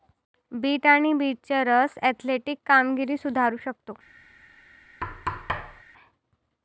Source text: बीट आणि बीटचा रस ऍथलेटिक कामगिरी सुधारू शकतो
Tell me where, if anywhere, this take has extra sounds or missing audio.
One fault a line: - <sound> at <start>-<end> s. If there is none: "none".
- thud at 5.0-5.8 s